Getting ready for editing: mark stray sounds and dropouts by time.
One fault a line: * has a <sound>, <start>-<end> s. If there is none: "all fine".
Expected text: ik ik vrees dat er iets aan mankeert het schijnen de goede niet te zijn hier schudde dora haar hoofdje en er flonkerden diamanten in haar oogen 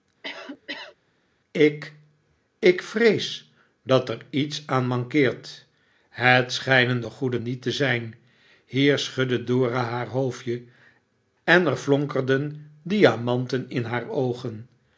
* has a cough, 0.2-1.0 s